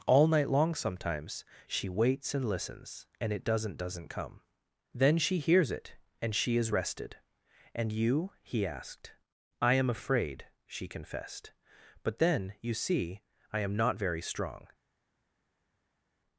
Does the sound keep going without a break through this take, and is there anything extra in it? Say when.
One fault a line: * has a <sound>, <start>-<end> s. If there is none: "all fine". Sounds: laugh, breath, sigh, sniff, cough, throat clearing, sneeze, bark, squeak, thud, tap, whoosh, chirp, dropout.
all fine